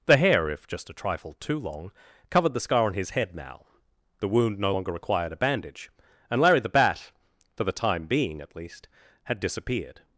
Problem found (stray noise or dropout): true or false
false